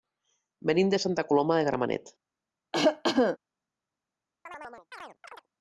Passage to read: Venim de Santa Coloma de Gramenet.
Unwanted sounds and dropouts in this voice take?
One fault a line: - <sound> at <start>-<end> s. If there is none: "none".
- cough at 2.7-3.4 s
- chirp at 4.5-5.5 s